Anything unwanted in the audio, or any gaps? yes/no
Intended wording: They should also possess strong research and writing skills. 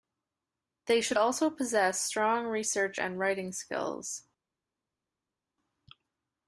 no